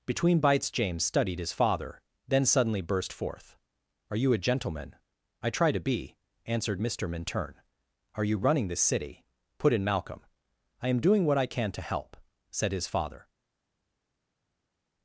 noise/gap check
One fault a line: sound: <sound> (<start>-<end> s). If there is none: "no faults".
no faults